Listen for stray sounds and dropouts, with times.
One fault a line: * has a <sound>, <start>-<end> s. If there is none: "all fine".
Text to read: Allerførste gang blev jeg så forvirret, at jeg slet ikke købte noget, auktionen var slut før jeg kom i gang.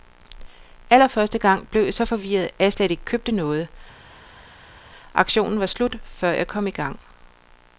all fine